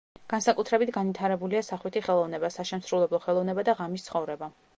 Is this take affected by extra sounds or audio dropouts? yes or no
no